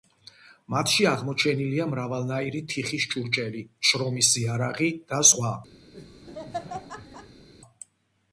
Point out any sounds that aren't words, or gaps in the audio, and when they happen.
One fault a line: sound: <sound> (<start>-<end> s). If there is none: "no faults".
sound: laugh (5.9-7.5 s)